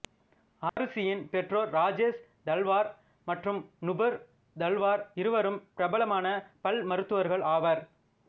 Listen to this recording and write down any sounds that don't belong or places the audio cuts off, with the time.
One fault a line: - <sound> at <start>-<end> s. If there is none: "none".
- dropout at 0.7-0.8 s